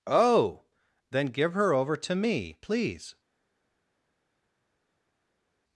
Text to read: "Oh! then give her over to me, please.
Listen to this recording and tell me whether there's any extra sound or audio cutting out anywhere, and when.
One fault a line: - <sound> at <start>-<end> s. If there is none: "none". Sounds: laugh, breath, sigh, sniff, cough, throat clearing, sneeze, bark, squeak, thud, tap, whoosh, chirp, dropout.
none